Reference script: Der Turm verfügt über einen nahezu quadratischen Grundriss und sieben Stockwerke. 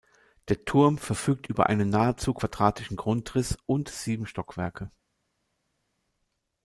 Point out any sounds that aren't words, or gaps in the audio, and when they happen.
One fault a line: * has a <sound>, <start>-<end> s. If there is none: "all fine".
all fine